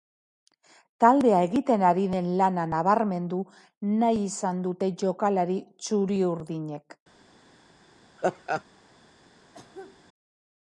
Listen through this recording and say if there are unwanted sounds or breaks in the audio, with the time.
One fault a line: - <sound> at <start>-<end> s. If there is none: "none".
- laugh at 8.2-8.6 s
- cough at 9.5-10.0 s